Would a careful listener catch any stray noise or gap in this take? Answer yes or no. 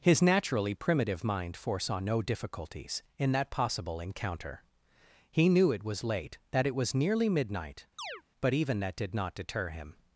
yes